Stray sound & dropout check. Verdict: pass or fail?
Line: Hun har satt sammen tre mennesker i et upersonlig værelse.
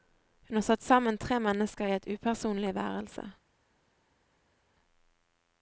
pass